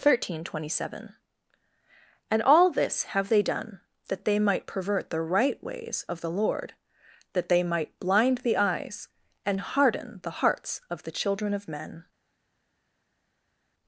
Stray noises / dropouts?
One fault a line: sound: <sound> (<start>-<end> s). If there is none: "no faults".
no faults